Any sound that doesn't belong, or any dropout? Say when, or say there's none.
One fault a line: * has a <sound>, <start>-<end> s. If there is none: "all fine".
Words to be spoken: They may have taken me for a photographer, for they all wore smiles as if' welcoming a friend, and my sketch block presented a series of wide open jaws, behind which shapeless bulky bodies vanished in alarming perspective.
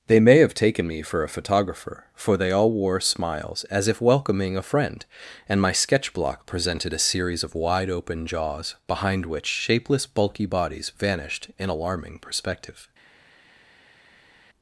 all fine